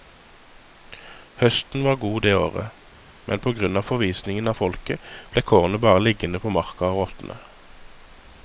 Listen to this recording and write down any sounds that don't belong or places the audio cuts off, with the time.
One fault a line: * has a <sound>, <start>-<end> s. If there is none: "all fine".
all fine